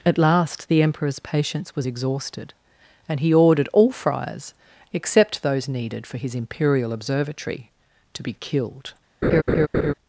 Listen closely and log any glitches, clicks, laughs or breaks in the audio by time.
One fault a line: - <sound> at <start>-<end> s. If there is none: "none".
- laugh at 9.2-9.9 s